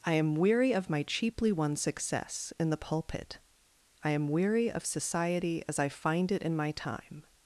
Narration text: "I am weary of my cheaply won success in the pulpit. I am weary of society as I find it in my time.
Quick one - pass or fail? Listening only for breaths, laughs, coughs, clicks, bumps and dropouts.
pass